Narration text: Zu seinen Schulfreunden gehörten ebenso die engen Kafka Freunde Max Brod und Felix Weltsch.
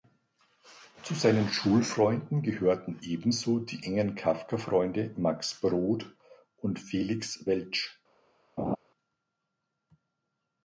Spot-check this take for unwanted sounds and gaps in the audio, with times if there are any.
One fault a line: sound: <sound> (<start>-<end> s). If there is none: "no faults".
sound: laugh (8.6-8.8 s)